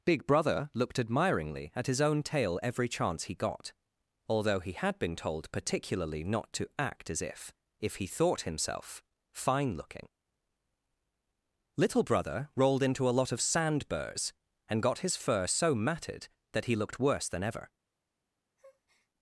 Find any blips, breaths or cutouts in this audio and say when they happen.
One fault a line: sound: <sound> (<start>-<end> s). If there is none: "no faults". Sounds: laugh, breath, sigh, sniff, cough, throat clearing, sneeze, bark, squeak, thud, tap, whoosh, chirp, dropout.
sound: breath (18.6-19.1 s)